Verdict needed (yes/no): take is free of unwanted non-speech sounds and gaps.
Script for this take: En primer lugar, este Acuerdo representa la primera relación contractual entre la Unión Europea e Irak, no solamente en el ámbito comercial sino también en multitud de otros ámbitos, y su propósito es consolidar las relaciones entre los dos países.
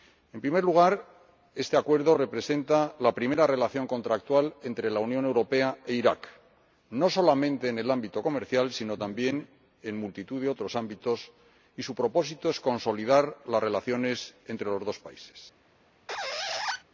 no